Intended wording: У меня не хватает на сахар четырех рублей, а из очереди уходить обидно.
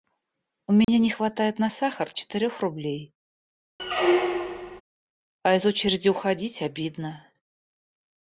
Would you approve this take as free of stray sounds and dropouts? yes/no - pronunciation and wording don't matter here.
no